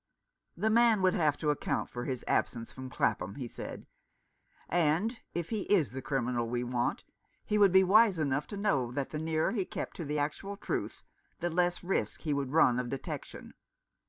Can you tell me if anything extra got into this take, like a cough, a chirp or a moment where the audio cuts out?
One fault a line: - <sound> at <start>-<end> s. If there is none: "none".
none